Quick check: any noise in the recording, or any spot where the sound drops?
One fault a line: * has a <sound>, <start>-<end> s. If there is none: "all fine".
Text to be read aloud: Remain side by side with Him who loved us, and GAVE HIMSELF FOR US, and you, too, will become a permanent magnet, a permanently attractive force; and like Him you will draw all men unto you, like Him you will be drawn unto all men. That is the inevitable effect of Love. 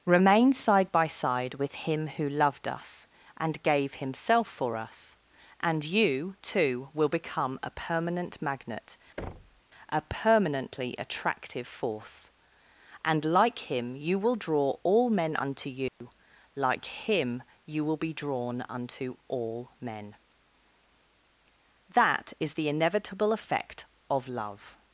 * has a thud, 9.2-9.6 s
* has a dropout, 15.9-16.0 s